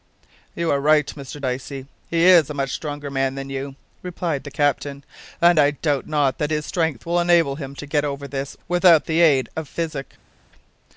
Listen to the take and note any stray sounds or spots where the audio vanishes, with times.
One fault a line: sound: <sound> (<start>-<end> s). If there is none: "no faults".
no faults